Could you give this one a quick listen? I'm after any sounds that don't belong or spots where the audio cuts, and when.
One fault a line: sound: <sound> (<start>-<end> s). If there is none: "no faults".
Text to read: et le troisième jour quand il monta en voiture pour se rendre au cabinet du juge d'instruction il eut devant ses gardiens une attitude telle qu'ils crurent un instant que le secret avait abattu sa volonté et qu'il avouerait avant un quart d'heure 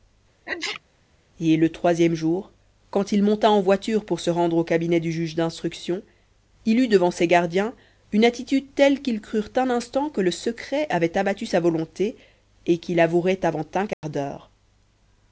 sound: sneeze (0.5-0.8 s)
sound: dropout (13.9-14.0 s)